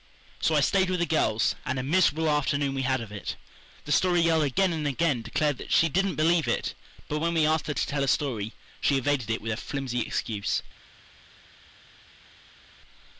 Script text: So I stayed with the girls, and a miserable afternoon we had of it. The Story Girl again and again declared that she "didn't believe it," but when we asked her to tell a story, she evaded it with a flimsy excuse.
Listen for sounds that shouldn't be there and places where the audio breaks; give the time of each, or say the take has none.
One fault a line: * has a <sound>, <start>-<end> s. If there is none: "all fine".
all fine